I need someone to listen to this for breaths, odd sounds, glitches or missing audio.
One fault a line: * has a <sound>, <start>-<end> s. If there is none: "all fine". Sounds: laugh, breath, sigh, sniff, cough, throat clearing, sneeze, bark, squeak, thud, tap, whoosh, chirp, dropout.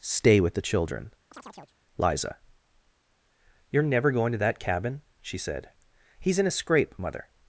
* has a chirp, 1.3-1.8 s